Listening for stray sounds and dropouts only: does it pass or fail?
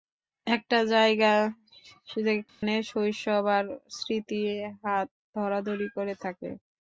fail